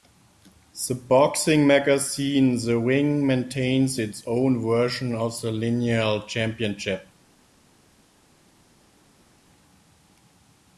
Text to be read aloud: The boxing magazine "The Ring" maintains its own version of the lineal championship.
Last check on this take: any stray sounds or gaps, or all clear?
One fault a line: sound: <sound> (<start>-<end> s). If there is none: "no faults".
no faults